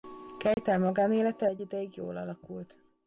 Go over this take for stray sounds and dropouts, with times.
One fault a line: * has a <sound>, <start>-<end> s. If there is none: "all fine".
* has a dropout, 0.5-0.6 s